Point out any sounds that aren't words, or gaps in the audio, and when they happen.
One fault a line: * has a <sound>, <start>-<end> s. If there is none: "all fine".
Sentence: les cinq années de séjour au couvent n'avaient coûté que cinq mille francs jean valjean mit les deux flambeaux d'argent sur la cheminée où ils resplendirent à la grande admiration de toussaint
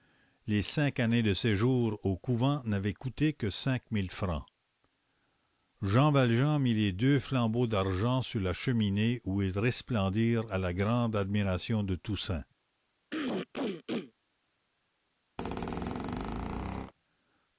* has a throat clearing, 13.1-14.1 s
* has a squeak, 15.4-16.9 s